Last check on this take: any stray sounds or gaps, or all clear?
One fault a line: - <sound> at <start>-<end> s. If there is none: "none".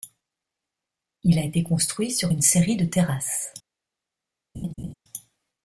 - laugh at 4.5-4.9 s